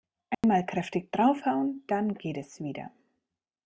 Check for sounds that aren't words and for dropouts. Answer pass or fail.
fail